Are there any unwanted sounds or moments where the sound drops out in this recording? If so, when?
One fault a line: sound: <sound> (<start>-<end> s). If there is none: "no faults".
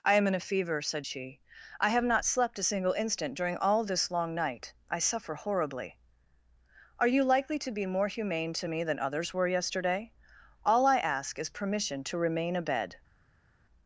no faults